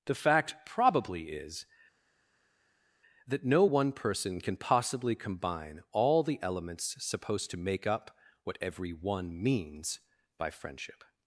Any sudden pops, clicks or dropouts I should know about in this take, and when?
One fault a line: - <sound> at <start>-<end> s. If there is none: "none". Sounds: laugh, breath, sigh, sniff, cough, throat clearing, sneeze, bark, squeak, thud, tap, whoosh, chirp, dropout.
none